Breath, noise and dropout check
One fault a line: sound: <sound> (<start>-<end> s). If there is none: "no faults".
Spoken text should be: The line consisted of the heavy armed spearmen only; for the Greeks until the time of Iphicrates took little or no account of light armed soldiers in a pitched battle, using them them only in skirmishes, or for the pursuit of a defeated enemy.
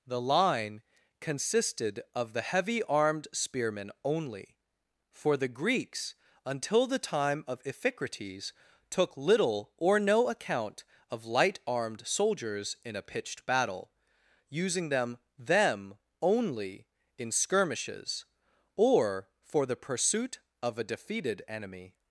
no faults